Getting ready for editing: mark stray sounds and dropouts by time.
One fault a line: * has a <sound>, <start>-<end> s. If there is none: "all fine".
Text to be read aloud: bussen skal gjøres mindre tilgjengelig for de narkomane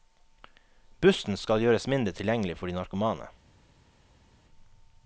all fine